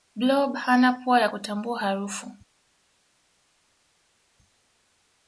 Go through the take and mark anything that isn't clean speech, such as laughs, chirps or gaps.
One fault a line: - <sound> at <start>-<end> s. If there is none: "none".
none